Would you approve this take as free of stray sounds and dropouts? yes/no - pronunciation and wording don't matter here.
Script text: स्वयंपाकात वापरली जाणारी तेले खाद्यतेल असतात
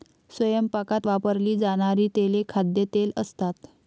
yes